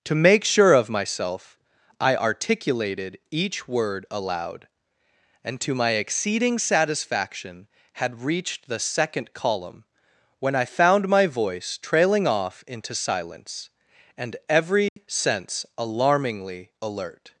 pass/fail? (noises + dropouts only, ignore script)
fail